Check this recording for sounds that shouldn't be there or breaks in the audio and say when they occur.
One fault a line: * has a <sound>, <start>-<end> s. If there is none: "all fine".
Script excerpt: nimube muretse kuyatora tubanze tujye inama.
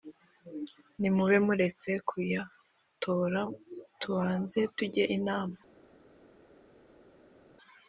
all fine